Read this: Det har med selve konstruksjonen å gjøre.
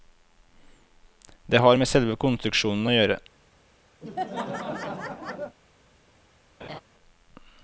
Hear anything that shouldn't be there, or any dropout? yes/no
yes